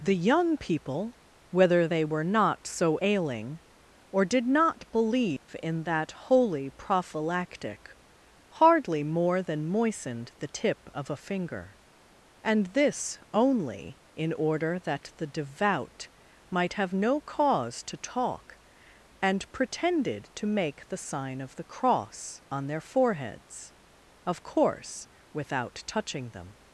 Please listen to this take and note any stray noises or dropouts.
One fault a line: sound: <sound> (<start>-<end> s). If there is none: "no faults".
sound: dropout (5.4-5.5 s)